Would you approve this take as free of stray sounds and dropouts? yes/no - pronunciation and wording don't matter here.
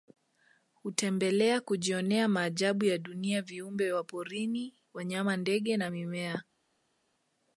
yes